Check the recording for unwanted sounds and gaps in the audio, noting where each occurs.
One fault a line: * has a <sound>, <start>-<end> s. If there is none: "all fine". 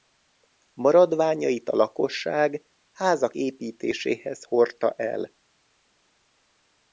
all fine